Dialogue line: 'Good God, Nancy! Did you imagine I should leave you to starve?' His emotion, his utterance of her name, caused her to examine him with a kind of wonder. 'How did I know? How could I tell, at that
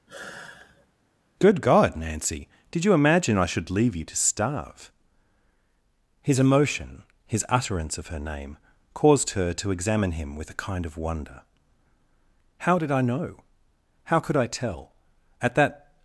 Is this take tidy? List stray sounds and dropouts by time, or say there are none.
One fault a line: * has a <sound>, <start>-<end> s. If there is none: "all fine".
* has a sigh, 0.1-0.9 s